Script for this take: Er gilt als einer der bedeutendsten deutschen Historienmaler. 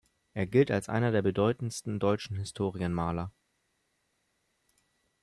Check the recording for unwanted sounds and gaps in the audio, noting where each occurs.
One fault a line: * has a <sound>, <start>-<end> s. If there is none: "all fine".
all fine